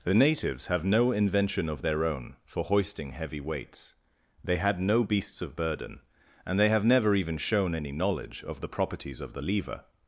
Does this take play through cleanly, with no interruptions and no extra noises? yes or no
yes